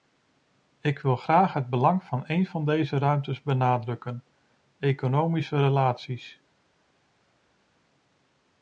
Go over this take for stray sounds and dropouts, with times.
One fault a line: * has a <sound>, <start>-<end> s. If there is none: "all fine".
all fine